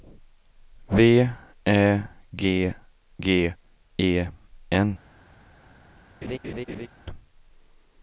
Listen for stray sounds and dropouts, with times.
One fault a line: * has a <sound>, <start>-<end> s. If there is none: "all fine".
* has a laugh, 6.2-6.9 s